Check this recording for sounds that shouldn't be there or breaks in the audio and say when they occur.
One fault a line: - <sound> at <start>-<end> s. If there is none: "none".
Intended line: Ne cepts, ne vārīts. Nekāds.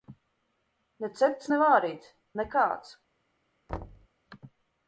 - thud at 3.7-4.1 s